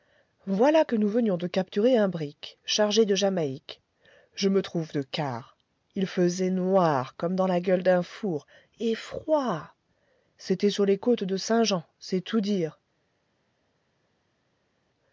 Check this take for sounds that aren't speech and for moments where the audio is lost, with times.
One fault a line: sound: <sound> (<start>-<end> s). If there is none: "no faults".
no faults